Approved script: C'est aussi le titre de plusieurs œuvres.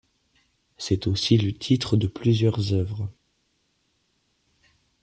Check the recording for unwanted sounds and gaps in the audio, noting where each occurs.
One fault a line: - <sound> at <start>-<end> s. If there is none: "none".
none